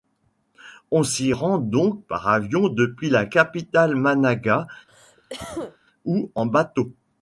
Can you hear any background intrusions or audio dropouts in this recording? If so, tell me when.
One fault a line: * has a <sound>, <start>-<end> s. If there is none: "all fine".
* has a cough, 4.9-5.8 s